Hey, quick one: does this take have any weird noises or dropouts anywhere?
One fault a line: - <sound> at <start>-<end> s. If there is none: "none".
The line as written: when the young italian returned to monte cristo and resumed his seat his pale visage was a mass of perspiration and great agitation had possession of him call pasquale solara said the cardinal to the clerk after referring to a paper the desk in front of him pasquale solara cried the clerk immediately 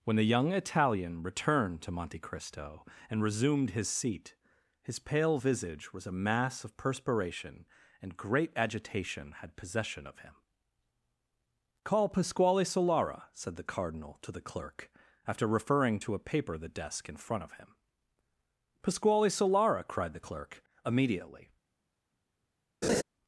- laugh at 22.8-23.0 s